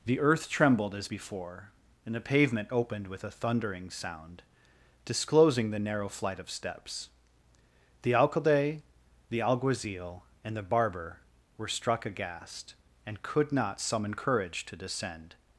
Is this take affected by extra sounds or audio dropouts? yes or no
no